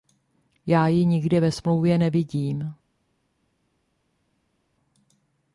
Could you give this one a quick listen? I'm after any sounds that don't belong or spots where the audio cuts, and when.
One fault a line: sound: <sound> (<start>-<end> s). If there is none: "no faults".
no faults